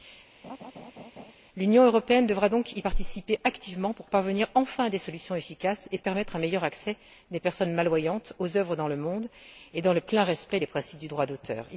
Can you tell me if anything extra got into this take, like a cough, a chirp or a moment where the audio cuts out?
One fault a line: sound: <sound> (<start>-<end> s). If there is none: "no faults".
sound: laugh (0.4-1.3 s)